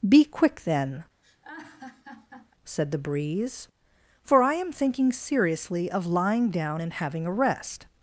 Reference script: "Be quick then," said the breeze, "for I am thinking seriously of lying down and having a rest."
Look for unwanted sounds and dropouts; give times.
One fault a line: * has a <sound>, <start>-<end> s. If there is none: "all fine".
* has a laugh, 1.2-2.5 s